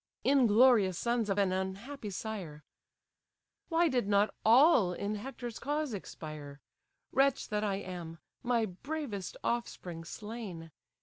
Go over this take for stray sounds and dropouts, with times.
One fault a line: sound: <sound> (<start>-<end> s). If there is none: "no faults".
no faults